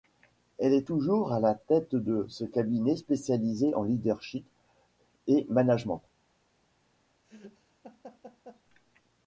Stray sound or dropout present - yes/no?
yes